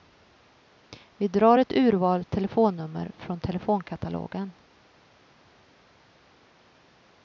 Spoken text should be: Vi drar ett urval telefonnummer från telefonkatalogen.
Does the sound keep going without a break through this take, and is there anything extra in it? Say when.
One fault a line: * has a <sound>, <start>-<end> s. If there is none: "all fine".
all fine